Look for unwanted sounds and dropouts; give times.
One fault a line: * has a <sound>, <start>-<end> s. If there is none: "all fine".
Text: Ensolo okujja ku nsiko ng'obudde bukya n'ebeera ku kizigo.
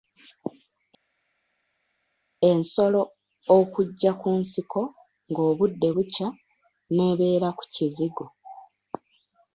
all fine